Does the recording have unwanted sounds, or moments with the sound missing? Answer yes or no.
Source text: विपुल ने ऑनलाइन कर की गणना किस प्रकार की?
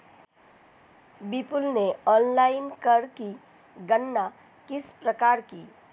no